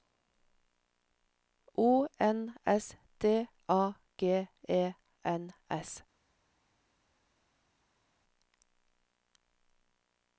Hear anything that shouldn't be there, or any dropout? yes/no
no